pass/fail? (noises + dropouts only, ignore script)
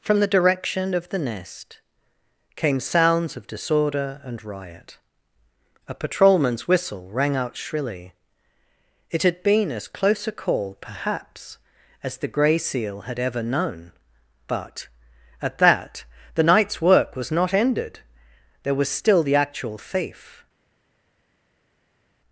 pass